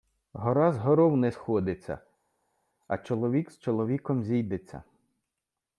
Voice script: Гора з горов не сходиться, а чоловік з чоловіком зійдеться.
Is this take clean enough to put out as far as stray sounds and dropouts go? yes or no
yes